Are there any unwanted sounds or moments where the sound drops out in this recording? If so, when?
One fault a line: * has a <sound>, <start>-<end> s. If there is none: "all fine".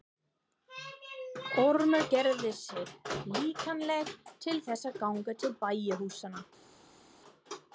all fine